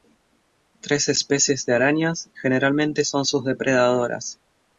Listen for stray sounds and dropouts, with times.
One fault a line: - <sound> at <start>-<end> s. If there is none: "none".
none